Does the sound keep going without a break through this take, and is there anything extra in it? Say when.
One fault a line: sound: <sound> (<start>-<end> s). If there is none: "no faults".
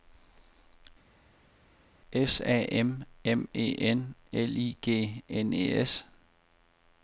no faults